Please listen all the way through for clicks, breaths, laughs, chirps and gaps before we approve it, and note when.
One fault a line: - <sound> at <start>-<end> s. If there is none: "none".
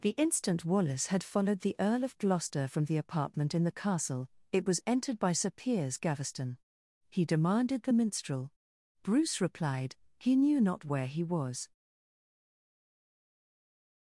none